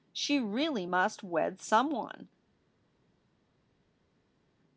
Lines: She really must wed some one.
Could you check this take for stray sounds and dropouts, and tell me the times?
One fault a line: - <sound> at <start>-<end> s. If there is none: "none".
none